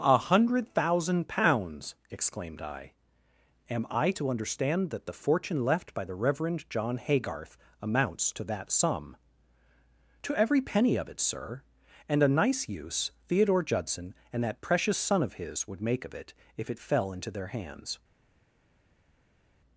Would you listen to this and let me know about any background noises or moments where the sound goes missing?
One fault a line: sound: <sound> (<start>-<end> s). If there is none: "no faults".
no faults